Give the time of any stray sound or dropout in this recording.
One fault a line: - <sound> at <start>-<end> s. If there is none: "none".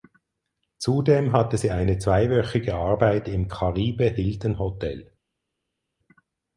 none